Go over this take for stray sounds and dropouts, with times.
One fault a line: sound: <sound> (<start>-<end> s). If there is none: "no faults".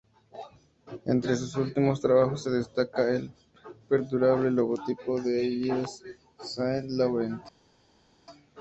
no faults